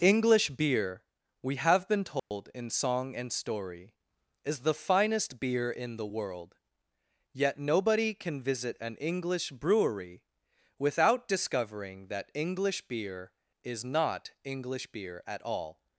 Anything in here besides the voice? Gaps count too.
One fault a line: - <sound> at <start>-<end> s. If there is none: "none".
- dropout at 2.2-2.3 s